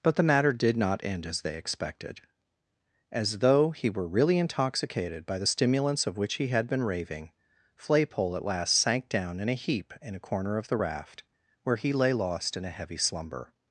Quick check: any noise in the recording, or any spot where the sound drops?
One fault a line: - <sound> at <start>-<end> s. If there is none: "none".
none